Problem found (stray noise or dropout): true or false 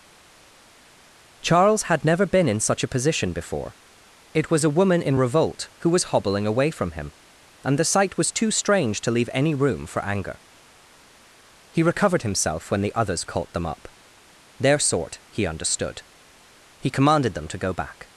false